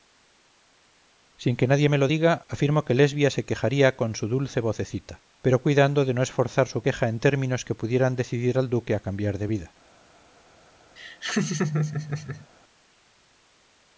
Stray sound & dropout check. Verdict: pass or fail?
fail